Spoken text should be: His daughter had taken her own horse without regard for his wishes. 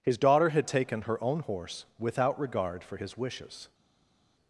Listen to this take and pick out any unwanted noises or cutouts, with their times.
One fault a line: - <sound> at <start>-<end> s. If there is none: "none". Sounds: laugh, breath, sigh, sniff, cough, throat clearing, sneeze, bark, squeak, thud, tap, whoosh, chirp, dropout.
none